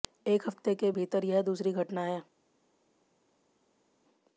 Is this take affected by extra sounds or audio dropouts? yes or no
no